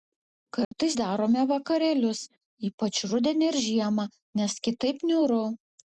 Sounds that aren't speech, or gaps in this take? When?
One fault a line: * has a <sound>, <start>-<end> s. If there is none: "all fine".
* has a dropout, 0.6-0.7 s